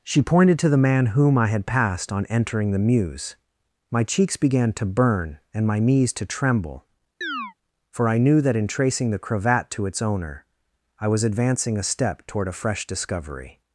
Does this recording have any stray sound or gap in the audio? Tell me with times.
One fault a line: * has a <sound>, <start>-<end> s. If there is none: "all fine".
* has a chirp, 7.2-7.5 s